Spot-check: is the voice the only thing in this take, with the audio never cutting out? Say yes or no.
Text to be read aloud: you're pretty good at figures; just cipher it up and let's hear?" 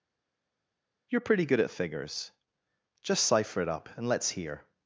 yes